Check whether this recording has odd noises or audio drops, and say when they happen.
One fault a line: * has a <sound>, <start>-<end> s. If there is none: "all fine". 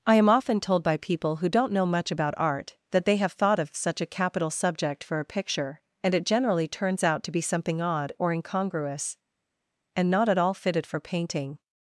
all fine